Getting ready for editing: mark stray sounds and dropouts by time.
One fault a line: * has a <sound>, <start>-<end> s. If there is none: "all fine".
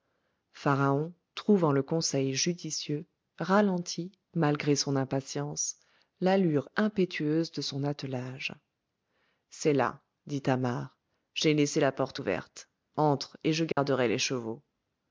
* has a dropout, 13.7-13.8 s